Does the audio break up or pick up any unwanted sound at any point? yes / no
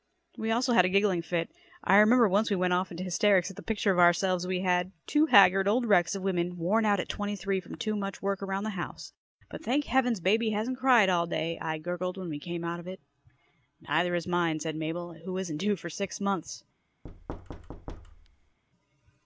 yes